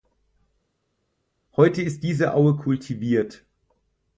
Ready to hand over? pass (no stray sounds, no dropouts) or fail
pass